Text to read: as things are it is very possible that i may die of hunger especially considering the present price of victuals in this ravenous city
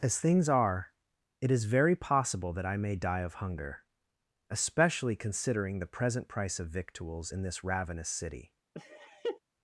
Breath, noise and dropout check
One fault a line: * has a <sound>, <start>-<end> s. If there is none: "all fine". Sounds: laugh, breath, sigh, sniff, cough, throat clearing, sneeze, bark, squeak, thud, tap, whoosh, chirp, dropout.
* has a laugh, 8.7-9.4 s